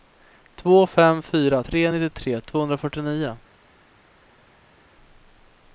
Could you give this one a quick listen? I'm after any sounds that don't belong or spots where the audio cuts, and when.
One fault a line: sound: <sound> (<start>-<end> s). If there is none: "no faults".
no faults